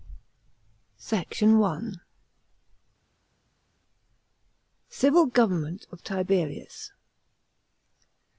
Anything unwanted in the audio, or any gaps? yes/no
no